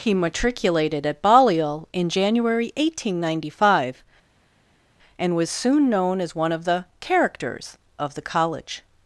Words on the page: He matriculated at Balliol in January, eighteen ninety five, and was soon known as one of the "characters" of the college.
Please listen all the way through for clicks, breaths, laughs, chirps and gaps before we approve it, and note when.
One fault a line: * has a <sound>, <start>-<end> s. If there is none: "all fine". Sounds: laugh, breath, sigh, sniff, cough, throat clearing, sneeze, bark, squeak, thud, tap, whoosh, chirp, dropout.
all fine